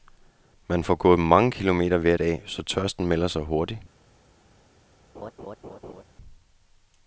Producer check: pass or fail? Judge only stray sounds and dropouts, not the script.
fail